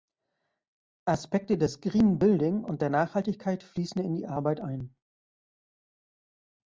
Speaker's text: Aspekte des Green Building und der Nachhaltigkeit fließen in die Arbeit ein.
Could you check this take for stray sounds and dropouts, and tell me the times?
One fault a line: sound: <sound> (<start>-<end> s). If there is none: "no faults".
no faults